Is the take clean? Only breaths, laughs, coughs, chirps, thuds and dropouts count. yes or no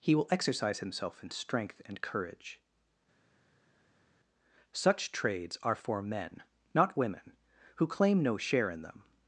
yes